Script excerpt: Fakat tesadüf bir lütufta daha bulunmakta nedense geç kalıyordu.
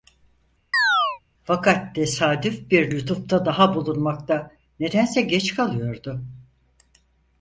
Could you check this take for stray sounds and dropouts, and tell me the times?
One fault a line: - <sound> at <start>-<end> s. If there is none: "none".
- chirp at 0.7-1.2 s